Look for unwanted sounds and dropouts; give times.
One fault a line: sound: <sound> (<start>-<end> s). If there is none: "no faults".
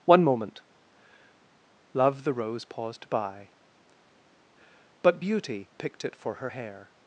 no faults